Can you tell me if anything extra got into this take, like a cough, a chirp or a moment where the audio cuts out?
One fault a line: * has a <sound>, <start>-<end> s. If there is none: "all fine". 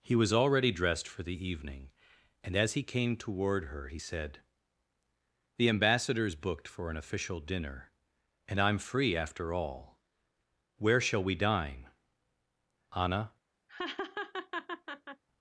* has a laugh, 13.7-15.2 s